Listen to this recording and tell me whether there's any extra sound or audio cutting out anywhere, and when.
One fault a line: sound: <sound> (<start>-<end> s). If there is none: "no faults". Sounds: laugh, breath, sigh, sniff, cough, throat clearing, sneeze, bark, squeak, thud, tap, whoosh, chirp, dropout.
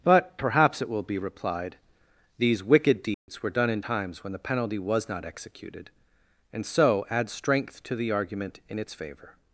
sound: dropout (3.1-3.3 s)